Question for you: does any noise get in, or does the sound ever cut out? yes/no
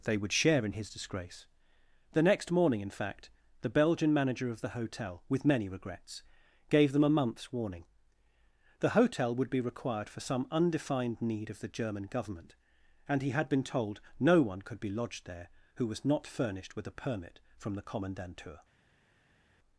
no